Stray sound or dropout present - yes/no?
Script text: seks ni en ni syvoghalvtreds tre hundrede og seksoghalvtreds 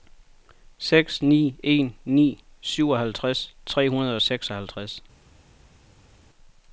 no